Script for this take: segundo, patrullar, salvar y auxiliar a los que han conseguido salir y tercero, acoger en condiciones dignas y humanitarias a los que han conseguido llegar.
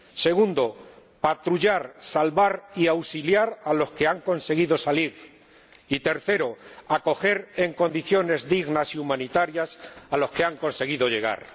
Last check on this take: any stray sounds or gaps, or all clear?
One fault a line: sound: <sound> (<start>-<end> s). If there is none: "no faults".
no faults